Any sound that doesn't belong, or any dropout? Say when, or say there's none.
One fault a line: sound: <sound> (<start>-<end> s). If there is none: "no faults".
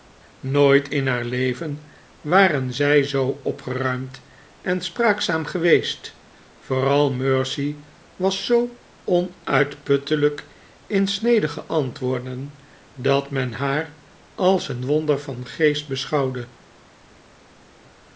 no faults